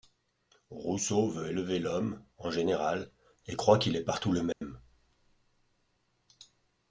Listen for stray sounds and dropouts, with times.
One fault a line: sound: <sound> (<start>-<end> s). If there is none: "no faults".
sound: dropout (4.5-4.6 s)